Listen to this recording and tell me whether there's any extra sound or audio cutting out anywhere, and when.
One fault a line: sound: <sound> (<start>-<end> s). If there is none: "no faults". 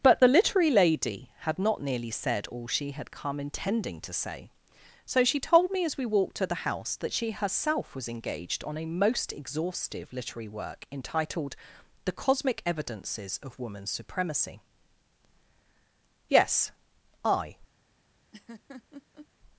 sound: laugh (18.3-19.3 s)